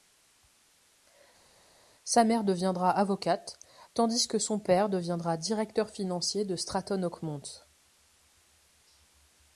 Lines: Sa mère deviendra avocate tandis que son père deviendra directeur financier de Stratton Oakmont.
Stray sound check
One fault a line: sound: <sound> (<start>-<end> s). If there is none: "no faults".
no faults